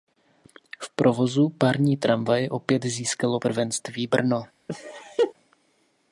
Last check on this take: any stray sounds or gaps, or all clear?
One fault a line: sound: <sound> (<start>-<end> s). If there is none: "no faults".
sound: laugh (4.7-5.3 s)